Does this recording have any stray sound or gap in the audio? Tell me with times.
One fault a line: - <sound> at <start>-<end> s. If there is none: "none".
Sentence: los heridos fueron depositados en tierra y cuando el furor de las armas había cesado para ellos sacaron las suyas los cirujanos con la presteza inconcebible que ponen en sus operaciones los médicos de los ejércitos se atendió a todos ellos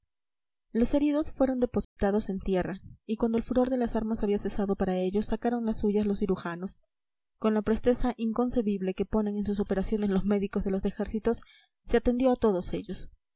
- dropout at 1.8-2.0 s